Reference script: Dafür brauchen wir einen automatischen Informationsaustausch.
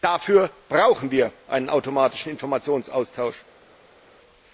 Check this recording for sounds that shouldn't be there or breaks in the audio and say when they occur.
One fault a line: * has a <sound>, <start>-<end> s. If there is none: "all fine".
all fine